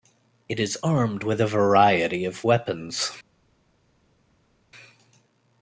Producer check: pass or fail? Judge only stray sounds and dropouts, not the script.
pass